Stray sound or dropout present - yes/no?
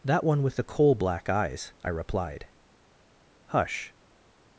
no